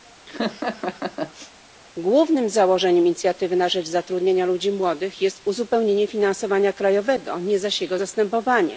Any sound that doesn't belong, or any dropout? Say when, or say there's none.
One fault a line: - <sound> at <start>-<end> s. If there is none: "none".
- laugh at 0.3-1.5 s